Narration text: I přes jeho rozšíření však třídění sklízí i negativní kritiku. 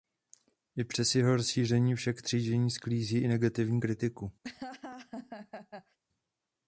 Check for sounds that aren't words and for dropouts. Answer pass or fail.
fail